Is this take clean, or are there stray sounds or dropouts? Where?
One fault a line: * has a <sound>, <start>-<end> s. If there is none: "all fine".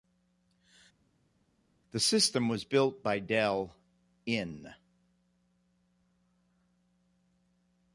all fine